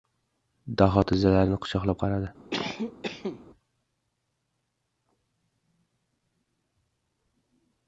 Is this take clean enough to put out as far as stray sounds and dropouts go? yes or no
no